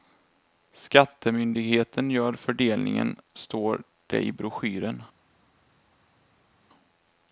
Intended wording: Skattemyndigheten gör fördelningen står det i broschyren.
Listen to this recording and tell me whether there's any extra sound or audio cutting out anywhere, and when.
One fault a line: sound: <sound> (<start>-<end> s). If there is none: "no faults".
no faults